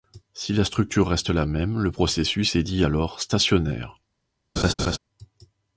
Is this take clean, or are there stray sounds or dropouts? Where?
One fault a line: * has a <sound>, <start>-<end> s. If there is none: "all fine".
* has a laugh, 4.6-5.0 s